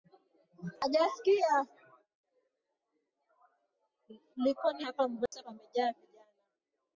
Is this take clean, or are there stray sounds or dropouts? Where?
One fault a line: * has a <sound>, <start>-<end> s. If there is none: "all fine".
* has a dropout, 5.3-5.3 s